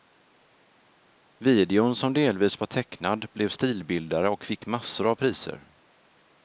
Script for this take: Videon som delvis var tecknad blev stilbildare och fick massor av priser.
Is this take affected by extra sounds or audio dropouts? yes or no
no